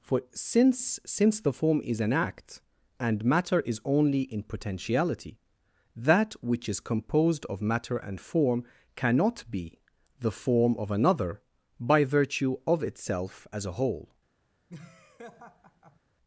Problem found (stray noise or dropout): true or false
true